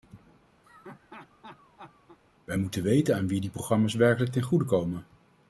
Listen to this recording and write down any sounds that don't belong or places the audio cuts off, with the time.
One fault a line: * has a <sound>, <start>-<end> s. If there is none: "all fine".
* has a laugh, 0.6-2.2 s